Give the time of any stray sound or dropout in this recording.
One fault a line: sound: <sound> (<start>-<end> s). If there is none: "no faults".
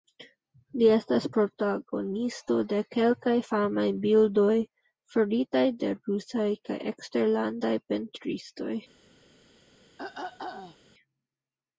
sound: throat clearing (10.0-10.8 s)